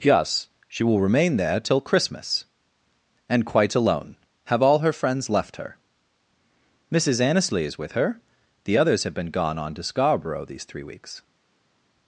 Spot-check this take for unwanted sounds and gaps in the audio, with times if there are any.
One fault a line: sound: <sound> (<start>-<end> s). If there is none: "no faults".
no faults